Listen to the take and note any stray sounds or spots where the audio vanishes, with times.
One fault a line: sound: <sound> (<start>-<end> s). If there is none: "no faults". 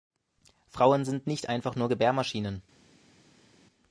no faults